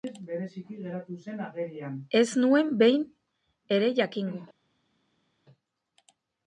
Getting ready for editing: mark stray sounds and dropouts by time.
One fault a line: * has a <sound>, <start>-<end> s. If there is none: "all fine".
all fine